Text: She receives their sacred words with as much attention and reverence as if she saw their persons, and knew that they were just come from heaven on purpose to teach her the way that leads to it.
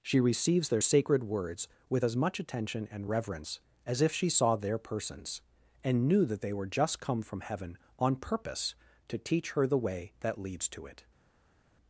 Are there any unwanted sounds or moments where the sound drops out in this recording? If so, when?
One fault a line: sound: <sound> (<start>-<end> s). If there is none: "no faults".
no faults